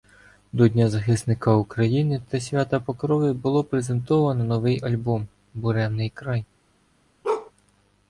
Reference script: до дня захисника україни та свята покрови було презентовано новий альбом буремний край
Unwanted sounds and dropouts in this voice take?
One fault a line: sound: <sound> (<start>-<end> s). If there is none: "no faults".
sound: bark (7.2-7.5 s)